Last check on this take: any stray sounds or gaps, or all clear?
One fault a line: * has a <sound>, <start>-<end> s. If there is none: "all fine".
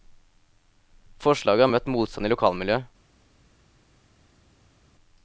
all fine